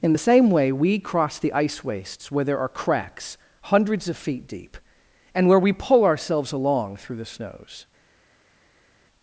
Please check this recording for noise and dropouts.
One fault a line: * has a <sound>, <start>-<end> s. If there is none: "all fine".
all fine